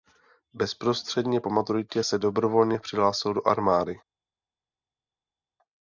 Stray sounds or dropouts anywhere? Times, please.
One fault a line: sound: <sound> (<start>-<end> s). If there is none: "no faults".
no faults